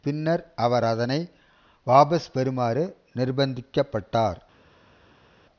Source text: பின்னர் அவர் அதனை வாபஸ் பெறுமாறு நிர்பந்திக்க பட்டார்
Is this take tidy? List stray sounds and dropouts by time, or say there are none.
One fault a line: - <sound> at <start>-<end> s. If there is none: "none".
none